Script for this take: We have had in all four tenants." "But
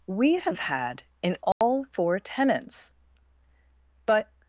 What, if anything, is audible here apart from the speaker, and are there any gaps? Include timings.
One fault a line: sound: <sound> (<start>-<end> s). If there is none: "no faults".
sound: dropout (1.5-1.6 s)